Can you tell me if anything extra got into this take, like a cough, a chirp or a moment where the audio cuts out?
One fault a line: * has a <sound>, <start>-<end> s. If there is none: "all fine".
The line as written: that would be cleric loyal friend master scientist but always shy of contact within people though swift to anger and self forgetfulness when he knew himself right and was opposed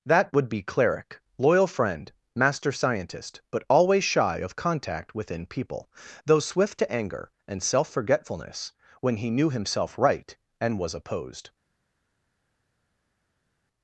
all fine